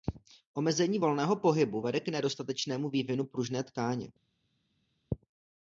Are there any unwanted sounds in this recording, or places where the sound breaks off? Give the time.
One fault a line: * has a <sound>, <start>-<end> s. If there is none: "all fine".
all fine